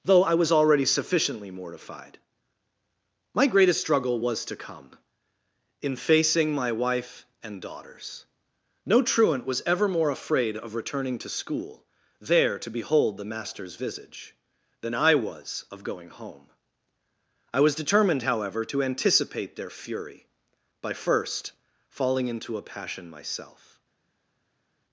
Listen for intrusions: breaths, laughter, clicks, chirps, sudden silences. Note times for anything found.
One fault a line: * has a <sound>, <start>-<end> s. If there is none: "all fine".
all fine